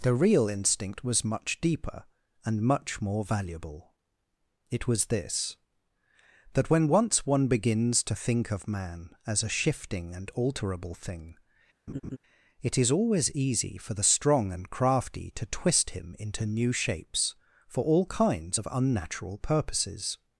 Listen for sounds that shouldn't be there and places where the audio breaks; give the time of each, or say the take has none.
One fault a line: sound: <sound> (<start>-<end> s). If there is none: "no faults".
sound: laugh (11.9-12.2 s)